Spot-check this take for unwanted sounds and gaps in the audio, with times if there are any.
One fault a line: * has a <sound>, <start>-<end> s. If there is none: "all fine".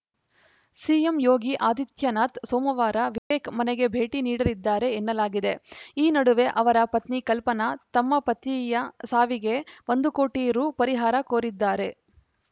* has a dropout, 3.2-3.3 s